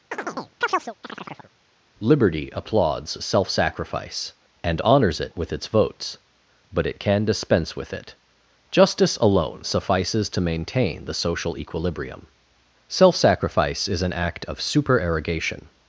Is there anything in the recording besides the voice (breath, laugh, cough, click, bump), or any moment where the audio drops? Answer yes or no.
yes